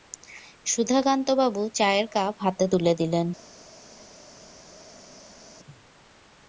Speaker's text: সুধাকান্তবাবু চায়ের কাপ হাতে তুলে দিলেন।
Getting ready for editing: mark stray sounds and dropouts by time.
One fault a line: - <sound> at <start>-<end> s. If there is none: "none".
none